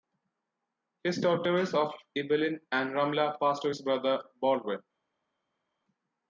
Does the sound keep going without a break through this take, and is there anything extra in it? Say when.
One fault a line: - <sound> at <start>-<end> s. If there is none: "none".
none